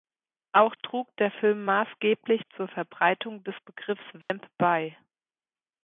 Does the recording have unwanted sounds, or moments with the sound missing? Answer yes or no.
yes